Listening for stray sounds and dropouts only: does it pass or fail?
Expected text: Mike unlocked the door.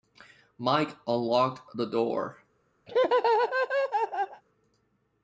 fail